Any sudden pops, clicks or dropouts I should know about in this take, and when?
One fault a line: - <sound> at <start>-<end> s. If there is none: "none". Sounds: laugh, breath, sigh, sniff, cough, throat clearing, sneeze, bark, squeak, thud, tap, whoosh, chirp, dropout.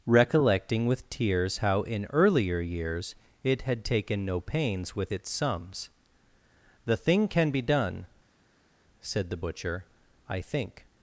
none